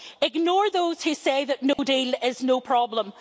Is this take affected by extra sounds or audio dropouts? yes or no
yes